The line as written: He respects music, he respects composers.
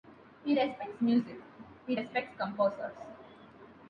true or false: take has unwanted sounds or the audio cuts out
false